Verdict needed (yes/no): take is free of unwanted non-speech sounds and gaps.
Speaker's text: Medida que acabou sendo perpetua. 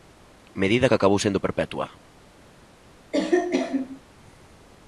no